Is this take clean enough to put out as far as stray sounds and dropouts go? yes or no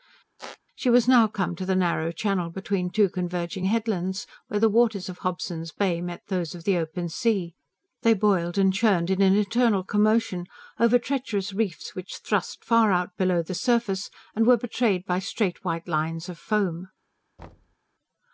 no